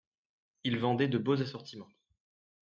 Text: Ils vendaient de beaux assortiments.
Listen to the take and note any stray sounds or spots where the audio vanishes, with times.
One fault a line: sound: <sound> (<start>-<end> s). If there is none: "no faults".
no faults